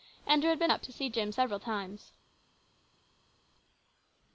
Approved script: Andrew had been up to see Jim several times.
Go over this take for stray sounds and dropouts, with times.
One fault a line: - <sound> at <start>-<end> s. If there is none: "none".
none